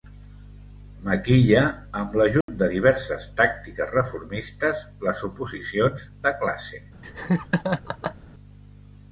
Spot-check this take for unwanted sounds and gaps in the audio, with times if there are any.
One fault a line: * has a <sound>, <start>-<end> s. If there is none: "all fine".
* has a dropout, 2.4-2.5 s
* has a laugh, 7.0-8.2 s